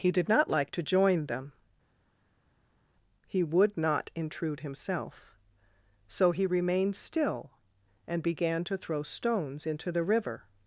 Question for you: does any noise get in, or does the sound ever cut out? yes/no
no